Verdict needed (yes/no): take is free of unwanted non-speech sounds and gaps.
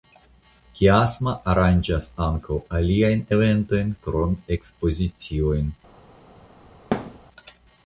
no